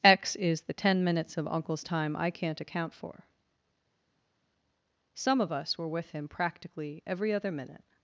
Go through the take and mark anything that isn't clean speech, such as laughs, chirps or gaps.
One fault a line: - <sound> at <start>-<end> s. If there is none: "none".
none